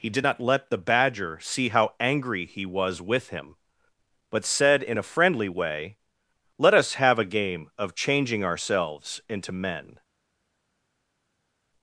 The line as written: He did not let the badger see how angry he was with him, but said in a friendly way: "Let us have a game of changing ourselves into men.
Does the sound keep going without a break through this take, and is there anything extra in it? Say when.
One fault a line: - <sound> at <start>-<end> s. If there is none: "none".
none